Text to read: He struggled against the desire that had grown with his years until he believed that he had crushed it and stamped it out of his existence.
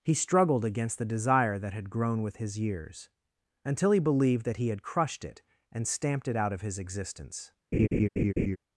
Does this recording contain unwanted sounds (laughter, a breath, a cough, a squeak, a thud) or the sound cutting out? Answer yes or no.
yes